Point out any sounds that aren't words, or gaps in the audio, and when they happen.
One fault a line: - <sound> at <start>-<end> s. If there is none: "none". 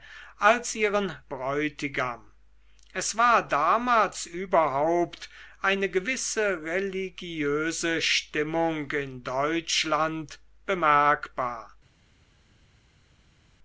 none